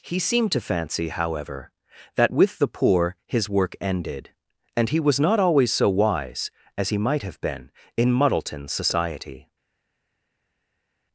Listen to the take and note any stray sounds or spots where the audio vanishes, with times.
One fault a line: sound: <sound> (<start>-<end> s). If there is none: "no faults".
no faults